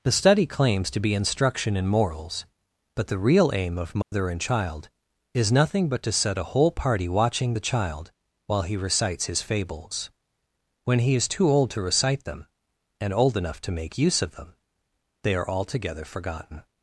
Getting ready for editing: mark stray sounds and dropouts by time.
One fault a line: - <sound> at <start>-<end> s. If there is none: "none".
- dropout at 4.0-4.1 s